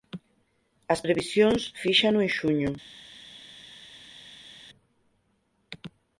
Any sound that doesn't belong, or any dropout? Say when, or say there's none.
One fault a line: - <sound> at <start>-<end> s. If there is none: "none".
none